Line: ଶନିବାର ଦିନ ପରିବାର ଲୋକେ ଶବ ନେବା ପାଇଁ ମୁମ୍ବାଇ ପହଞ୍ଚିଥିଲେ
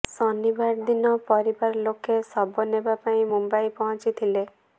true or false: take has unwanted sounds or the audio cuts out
false